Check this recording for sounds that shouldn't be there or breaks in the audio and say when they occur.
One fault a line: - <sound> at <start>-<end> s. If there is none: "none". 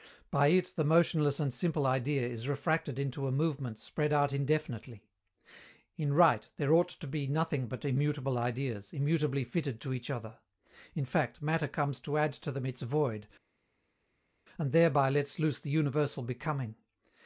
none